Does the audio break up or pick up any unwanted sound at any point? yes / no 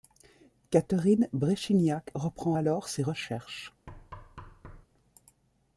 yes